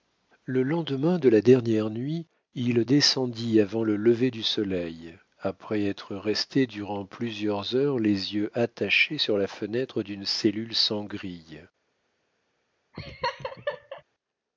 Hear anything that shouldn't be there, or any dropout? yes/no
yes